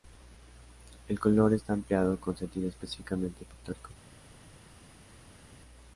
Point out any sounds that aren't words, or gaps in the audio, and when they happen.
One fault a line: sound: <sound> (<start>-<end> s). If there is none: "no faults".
no faults